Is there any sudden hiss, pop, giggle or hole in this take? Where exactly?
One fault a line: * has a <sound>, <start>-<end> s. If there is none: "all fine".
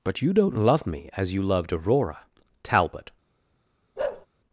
* has a bark, 4.0-4.3 s